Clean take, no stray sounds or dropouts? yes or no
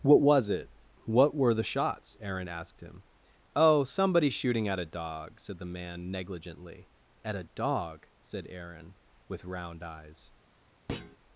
no